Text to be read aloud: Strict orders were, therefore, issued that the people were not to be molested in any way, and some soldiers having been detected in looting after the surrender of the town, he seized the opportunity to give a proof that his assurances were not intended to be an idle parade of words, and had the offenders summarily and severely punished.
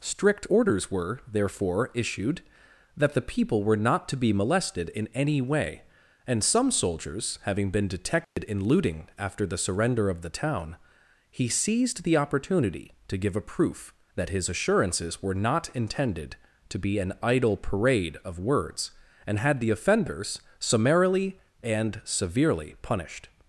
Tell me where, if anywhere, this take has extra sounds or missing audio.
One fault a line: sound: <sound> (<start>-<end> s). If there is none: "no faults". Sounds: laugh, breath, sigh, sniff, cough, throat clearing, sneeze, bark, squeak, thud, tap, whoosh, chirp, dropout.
sound: dropout (8.2-8.4 s)